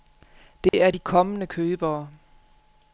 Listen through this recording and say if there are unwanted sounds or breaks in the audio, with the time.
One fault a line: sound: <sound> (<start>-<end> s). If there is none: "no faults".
sound: dropout (0.7-0.7 s)